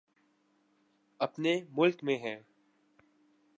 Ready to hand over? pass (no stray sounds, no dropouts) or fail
pass